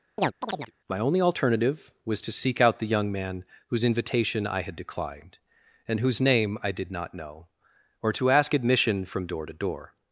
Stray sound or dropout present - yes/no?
yes